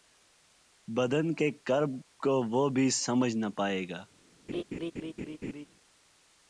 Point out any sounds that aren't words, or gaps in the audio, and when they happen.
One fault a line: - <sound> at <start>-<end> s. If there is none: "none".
- laugh at 4.5-5.7 s